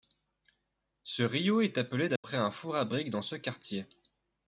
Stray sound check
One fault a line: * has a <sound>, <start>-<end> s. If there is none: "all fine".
* has a dropout, 2.2-2.2 s